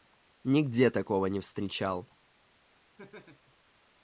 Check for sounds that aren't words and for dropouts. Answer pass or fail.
fail